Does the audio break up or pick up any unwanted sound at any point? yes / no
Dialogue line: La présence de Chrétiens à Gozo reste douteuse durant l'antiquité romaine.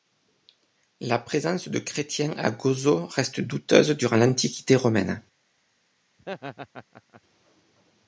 yes